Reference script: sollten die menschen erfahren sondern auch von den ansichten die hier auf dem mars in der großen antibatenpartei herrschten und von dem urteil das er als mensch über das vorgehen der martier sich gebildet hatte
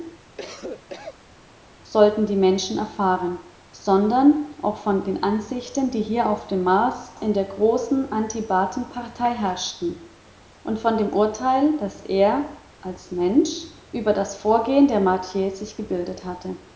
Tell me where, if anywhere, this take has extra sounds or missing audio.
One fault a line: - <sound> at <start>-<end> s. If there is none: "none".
- cough at 0.4-1.2 s